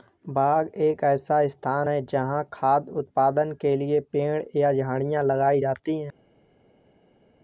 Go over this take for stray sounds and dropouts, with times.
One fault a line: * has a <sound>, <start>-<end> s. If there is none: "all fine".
all fine